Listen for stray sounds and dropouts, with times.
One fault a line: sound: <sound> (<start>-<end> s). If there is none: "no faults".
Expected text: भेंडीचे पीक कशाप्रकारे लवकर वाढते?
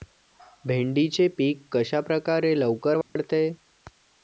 sound: dropout (3.0-3.2 s)